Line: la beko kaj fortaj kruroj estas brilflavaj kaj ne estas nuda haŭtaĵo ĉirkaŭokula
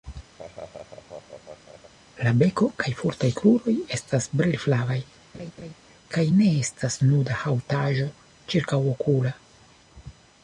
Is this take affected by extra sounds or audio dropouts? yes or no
yes